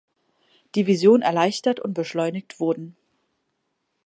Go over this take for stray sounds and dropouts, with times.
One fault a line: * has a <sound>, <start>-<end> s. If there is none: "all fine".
all fine